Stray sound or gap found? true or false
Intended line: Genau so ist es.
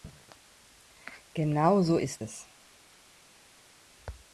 false